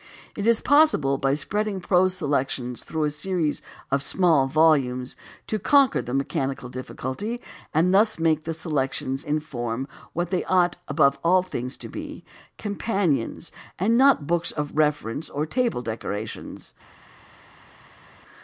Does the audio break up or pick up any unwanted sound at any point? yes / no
no